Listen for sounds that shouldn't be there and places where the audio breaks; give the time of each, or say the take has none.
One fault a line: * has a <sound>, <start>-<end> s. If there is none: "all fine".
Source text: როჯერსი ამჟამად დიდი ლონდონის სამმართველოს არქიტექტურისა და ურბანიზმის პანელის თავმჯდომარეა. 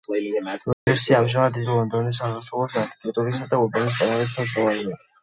* has a dropout, 0.7-0.9 s